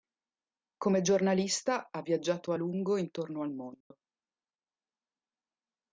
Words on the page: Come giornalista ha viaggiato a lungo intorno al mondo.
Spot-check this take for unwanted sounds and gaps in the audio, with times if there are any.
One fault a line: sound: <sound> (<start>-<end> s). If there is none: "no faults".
sound: dropout (3.8-3.9 s)